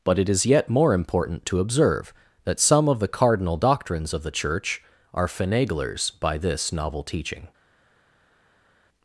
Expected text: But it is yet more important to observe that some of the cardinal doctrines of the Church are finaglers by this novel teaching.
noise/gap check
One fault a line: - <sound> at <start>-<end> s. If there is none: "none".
none